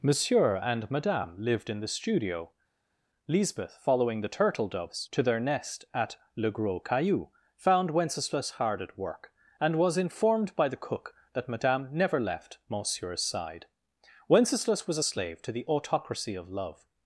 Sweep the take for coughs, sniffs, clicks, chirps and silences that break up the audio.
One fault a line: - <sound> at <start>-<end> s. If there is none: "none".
none